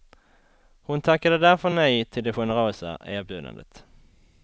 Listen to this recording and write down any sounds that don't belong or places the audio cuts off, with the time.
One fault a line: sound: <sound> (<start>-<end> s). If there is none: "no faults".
no faults